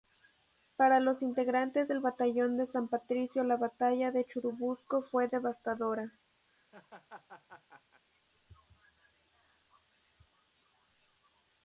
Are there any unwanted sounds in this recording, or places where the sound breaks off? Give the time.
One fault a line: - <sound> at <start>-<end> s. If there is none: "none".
- laugh at 6.5-8.0 s